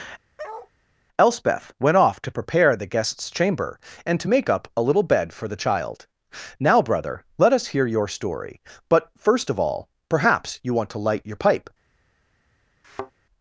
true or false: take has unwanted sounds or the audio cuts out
true